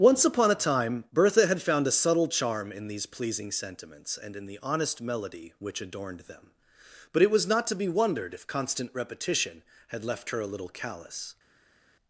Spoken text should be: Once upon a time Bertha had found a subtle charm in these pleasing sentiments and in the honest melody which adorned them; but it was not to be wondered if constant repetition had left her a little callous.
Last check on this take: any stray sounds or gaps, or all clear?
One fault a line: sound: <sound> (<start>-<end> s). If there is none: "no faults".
no faults